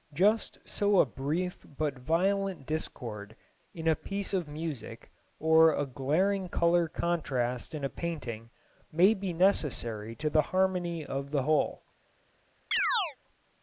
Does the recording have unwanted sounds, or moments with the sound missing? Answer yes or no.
yes